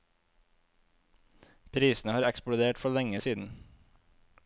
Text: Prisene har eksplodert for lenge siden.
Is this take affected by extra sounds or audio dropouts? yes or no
no